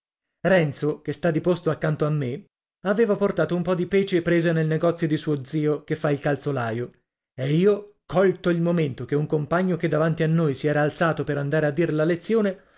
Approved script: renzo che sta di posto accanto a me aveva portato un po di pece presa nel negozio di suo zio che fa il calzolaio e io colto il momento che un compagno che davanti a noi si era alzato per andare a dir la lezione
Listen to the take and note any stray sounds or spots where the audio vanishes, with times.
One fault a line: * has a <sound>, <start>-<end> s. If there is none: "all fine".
all fine